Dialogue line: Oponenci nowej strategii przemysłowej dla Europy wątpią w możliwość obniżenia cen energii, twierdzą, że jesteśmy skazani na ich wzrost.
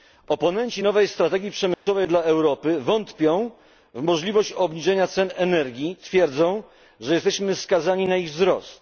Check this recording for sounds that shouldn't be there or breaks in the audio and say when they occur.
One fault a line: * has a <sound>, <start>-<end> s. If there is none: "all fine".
* has a dropout, 1.7-1.9 s